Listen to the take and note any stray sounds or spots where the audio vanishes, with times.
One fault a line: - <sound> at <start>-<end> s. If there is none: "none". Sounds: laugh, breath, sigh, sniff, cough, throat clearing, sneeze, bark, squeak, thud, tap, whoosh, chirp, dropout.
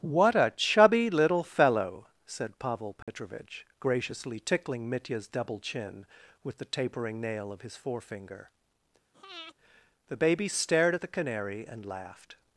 - dropout at 3.0-3.1 s
- breath at 9.1-9.5 s